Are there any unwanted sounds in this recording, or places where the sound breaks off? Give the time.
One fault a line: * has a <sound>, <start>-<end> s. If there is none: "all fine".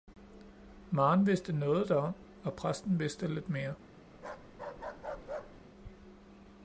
* has a bark, 4.1-5.6 s